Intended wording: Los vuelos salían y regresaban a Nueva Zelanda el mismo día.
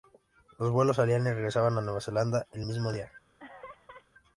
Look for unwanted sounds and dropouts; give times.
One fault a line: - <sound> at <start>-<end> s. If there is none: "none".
- laugh at 3.4-4.1 s